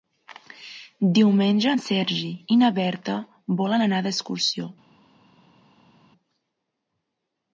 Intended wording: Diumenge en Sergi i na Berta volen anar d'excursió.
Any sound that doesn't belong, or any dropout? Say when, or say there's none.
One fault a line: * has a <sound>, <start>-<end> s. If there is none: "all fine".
all fine